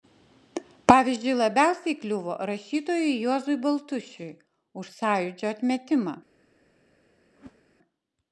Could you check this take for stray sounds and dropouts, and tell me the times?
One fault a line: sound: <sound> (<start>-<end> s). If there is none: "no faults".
sound: whoosh (7.3-7.6 s)